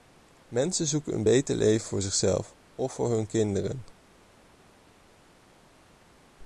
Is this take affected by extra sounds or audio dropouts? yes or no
no